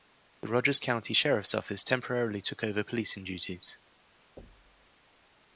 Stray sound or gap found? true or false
true